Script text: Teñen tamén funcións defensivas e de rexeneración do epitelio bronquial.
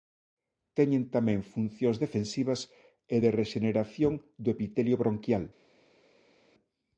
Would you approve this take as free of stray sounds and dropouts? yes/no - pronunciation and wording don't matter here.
yes